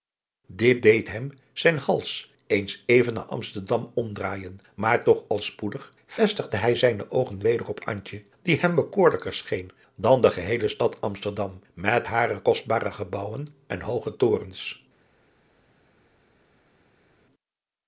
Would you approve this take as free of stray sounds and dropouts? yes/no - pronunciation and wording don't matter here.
yes